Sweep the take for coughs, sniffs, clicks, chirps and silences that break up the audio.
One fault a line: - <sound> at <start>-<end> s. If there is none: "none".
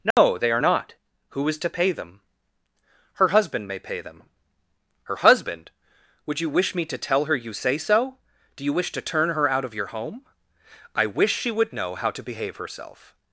- dropout at 0.1-0.2 s